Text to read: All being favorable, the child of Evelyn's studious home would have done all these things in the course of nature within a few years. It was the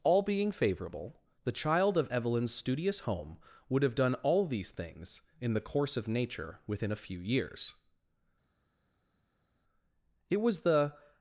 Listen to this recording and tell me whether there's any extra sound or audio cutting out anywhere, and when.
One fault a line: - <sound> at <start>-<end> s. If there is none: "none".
none